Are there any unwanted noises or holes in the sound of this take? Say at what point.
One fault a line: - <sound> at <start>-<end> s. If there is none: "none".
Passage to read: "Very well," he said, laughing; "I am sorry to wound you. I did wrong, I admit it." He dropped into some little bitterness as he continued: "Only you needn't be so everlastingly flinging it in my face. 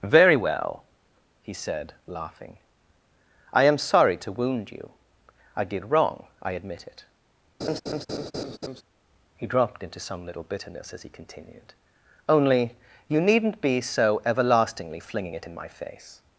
- laugh at 7.6-8.8 s